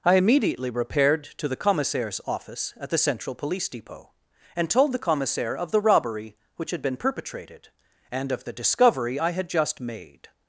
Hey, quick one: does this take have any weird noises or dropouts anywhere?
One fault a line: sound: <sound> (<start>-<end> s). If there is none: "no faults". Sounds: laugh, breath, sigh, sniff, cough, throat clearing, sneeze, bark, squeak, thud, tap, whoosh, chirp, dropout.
no faults